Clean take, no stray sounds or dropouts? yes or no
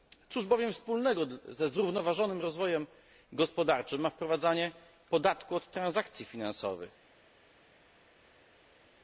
yes